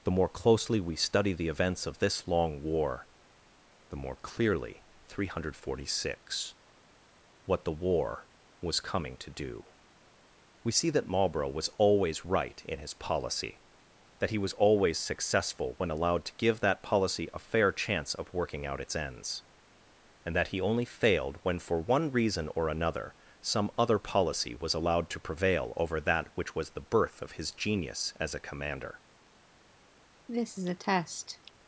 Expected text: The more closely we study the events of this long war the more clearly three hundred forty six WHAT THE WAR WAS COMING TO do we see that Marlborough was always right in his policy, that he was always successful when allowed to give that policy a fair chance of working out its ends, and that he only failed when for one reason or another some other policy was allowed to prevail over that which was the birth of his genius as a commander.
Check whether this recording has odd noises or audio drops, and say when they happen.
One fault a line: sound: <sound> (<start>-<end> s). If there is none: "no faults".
sound: cough (30.3-31.5 s)